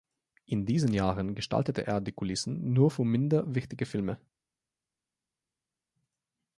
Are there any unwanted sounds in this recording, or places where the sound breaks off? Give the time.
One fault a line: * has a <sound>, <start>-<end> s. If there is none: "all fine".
all fine